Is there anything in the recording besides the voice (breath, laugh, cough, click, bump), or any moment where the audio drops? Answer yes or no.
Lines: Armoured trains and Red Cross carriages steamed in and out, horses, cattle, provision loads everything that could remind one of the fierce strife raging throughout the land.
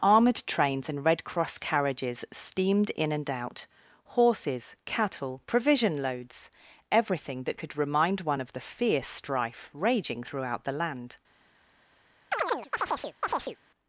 yes